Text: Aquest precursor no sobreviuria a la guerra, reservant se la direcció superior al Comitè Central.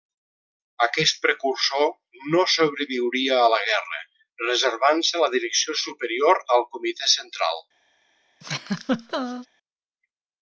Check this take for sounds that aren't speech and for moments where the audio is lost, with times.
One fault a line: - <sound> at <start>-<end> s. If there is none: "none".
- laugh at 8.4-9.5 s